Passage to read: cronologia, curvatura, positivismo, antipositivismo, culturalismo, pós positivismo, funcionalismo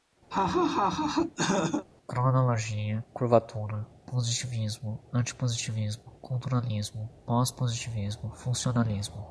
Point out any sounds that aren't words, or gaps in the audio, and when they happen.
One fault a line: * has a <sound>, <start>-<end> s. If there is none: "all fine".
* has a laugh, 0.3-1.9 s